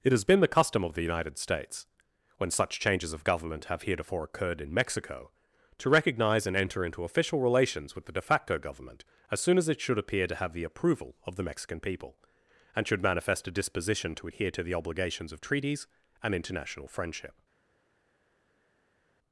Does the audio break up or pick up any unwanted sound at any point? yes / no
no